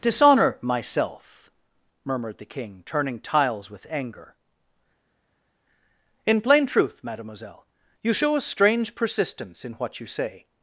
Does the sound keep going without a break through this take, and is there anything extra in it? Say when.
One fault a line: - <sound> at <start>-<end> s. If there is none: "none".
none